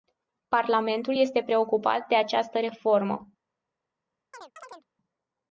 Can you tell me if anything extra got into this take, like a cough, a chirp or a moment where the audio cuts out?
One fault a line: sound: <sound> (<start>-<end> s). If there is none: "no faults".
sound: chirp (4.3-4.9 s)